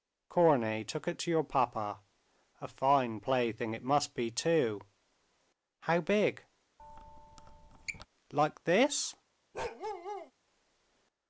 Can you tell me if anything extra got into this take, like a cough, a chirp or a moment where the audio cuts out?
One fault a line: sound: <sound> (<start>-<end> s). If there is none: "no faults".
sound: squeak (6.8-8.1 s)
sound: bark (9.5-10.3 s)